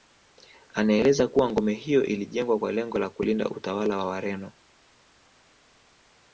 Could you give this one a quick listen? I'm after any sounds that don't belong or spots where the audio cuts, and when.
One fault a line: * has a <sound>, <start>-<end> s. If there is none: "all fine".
all fine